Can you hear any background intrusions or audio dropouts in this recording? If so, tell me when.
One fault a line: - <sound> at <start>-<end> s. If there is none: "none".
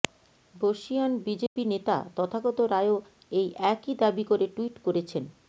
- dropout at 1.5-1.6 s